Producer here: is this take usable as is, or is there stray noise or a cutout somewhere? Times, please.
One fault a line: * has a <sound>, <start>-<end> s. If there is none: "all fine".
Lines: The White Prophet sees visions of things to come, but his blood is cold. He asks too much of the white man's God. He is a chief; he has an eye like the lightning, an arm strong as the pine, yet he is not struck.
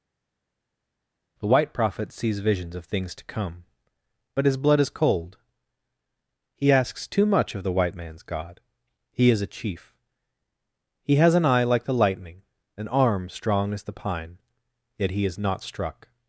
all fine